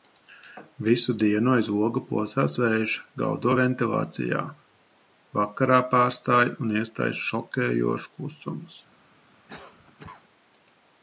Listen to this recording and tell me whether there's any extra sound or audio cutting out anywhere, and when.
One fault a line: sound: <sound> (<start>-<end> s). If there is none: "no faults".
sound: cough (9.5-10.2 s)